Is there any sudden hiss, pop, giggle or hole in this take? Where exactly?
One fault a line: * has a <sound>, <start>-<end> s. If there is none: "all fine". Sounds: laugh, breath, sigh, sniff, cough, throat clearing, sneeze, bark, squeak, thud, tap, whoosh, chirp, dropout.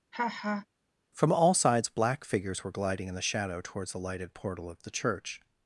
* has a laugh, 0.1-0.7 s